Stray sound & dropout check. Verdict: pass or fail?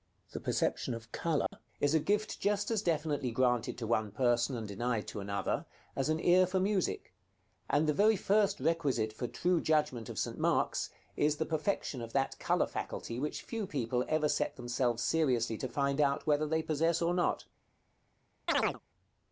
fail